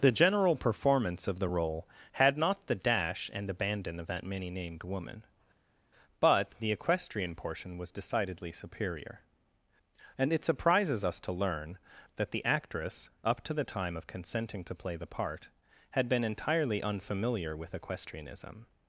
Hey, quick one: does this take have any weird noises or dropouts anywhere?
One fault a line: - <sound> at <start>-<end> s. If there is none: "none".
none